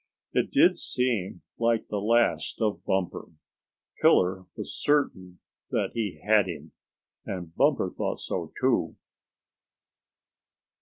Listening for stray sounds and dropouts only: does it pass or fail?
pass